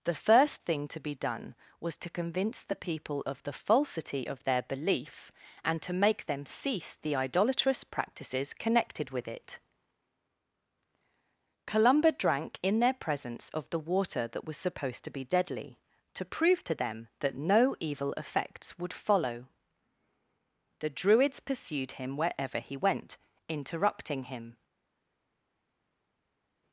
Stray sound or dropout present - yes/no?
no